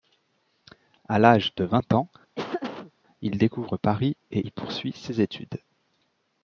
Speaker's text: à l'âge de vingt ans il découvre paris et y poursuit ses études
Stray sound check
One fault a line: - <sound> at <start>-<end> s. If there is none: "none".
- laugh at 2.3-2.9 s